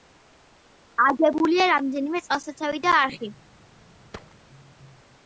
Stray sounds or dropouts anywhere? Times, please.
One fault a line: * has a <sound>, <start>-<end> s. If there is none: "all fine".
* has a thud, 4.1-4.4 s